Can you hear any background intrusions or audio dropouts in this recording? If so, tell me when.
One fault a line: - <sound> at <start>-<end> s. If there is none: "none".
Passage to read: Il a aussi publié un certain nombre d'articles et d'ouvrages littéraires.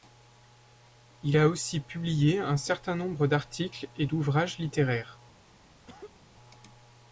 - cough at 5.9-6.2 s